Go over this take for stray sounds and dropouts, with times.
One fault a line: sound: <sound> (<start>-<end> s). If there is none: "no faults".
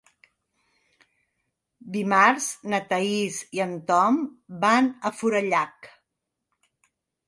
no faults